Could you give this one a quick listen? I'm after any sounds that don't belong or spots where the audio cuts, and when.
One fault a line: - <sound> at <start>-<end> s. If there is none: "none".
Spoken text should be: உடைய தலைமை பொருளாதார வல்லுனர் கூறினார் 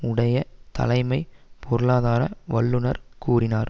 none